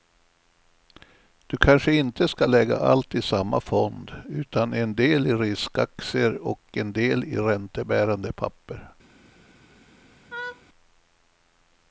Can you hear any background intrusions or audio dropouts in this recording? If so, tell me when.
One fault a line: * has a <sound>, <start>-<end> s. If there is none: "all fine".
* has a laugh, 10.3-10.6 s